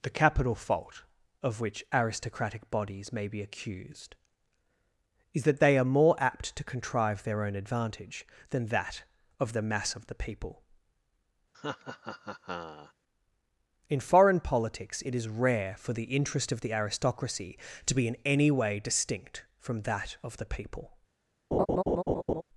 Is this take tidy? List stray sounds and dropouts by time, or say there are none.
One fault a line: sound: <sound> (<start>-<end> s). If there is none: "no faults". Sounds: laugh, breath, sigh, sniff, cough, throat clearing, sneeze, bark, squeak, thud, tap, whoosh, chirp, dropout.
sound: laugh (11.5-12.9 s)
sound: laugh (21.5-22.4 s)